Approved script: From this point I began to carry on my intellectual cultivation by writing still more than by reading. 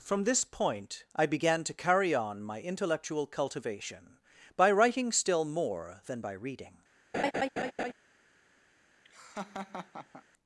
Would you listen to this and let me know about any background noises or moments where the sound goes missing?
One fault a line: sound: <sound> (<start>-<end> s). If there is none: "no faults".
sound: laugh (7.1-7.9 s)
sound: laugh (9.0-10.2 s)